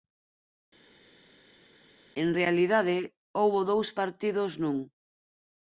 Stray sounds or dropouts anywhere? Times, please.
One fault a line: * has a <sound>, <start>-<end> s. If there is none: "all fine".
all fine